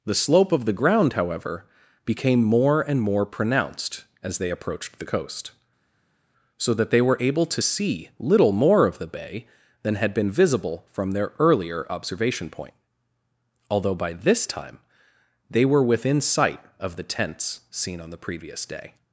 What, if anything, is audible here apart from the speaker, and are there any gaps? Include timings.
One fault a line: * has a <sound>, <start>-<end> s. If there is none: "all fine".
all fine